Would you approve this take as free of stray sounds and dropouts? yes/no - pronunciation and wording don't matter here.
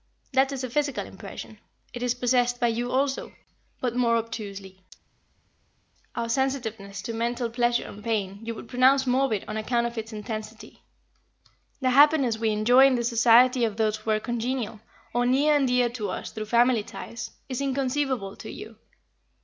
yes